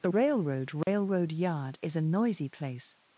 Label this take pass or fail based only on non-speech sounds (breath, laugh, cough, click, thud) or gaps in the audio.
fail